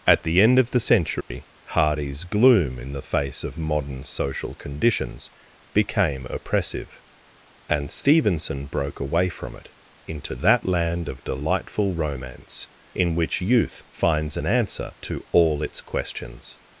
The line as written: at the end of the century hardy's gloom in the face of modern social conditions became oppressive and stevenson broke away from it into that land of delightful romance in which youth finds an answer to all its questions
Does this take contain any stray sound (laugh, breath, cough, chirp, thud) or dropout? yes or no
yes